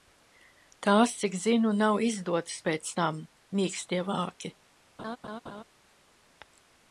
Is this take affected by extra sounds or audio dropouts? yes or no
yes